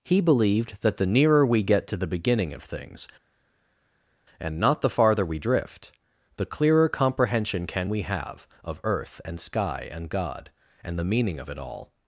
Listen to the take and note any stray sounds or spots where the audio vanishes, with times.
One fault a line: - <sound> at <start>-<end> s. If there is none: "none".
none